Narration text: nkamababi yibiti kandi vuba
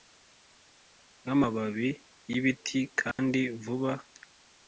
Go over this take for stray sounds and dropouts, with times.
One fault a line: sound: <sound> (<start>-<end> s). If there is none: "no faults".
sound: dropout (3.1-3.2 s)